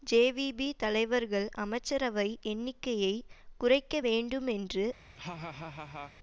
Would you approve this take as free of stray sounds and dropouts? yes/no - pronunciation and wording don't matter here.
no